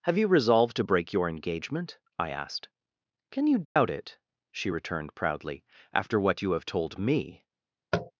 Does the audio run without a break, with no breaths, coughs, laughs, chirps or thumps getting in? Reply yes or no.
no